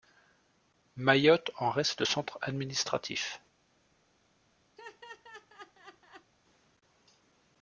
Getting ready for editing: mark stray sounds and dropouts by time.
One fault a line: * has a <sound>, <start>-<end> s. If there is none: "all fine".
* has a laugh, 4.8-6.3 s